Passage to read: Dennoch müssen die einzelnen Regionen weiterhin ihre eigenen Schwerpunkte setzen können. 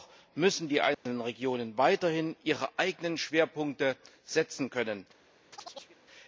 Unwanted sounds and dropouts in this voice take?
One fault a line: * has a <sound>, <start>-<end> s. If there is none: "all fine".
* has a dropout, 0.9-1.1 s
* has a chirp, 5.5-6.0 s